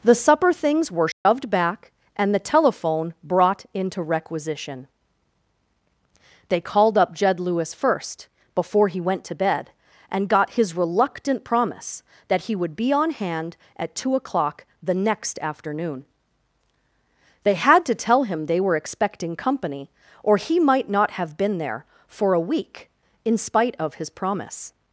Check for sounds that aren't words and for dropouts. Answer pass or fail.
fail